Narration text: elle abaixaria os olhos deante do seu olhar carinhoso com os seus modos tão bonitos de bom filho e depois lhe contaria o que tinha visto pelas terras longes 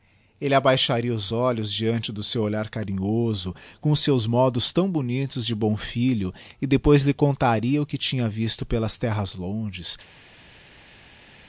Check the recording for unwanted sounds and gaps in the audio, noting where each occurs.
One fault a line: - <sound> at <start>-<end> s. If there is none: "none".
none